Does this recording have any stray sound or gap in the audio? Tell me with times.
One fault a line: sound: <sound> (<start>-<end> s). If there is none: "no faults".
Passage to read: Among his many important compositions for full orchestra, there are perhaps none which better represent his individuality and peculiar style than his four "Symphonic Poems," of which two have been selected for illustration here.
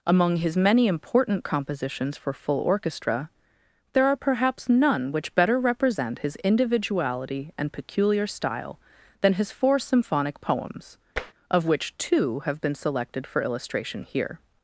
sound: tap (11.2-11.3 s)